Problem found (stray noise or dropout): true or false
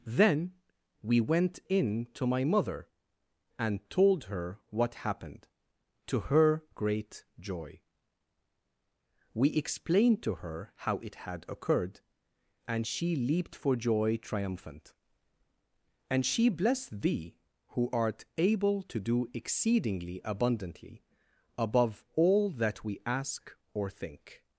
false